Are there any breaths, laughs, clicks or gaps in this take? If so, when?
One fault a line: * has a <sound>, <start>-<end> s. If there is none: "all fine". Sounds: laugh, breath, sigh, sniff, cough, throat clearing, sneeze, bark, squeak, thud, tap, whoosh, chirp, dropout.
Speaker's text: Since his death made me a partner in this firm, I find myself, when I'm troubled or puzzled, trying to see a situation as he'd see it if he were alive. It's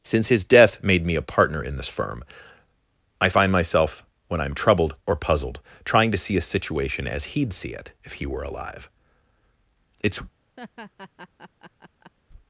* has a laugh, 10.6-12.1 s